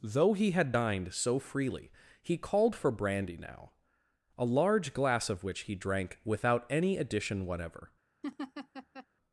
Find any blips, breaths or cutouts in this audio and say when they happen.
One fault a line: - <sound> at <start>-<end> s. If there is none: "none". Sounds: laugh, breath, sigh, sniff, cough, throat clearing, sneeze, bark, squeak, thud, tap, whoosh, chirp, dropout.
- laugh at 8.2-9.1 s